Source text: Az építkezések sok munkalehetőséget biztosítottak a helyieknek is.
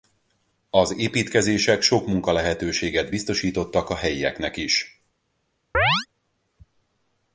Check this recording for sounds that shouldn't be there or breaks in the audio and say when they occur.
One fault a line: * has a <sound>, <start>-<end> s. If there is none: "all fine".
* has a chirp, 5.7-6.1 s